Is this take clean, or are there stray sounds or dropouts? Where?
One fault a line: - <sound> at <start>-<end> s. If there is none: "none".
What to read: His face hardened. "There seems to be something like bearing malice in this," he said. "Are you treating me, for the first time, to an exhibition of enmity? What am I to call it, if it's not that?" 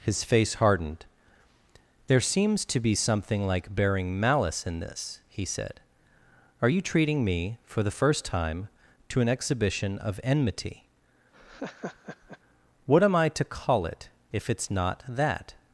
- laugh at 11.3-12.4 s